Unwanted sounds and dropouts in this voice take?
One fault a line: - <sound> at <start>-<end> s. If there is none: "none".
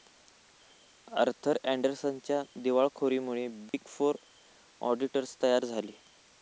- dropout at 3.7-3.7 s